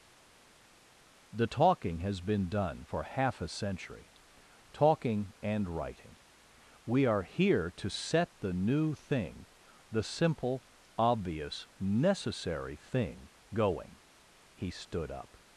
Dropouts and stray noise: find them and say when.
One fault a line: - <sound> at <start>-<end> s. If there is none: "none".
none